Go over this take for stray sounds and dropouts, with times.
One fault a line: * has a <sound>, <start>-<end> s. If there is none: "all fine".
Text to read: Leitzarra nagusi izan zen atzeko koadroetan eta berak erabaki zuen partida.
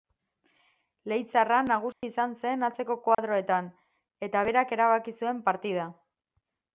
* has a dropout, 1.9-2.0 s
* has a dropout, 3.1-3.2 s